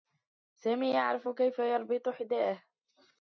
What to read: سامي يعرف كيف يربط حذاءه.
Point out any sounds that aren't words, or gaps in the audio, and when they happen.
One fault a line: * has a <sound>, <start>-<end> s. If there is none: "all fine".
all fine